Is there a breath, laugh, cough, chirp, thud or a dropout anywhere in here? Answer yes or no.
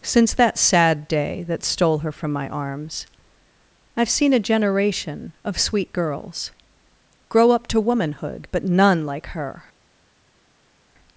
no